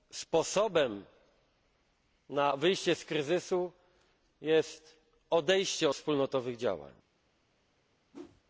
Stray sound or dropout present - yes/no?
yes